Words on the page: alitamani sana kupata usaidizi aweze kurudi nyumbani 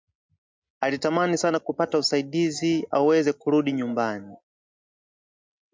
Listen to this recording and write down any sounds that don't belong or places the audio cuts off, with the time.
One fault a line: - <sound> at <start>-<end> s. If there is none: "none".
none